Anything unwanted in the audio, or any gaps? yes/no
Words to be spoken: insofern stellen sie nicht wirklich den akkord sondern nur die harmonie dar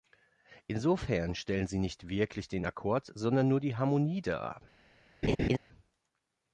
yes